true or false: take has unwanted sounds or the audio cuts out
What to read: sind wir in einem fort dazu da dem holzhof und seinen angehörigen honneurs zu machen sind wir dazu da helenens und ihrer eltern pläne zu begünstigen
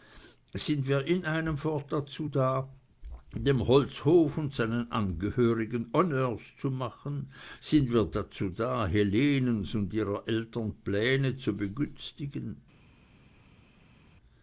false